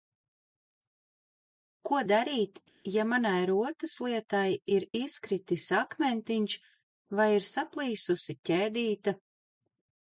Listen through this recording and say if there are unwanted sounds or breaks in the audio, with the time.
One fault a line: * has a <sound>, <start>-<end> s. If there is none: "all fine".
all fine